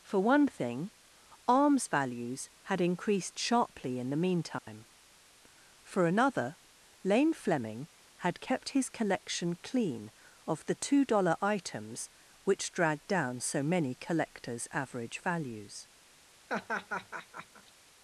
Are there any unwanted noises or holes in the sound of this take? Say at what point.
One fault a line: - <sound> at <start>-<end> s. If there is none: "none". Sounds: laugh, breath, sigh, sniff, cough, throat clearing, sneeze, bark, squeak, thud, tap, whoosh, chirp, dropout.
- dropout at 4.6-4.7 s
- laugh at 16.5-17.7 s